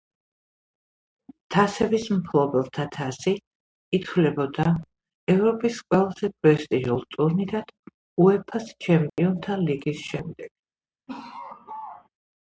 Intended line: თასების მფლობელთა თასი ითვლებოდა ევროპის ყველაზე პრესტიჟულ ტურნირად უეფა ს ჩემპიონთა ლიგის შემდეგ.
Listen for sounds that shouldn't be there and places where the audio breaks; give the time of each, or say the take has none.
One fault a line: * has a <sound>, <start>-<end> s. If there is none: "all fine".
* has a dropout, 9.1-9.2 s
* has a laugh, 11.1-12.1 s